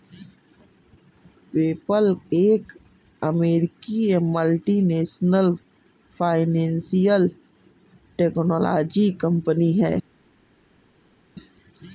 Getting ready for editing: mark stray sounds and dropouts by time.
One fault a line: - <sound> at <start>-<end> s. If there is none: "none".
none